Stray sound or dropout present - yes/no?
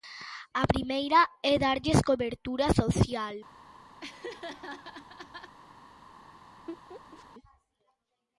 yes